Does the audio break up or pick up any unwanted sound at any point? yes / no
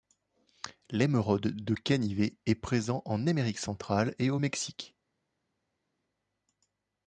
no